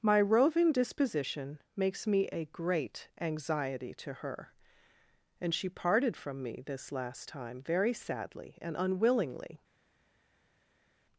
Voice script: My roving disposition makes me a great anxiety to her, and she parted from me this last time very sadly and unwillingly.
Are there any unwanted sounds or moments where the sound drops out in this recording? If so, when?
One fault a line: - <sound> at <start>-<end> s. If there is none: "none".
none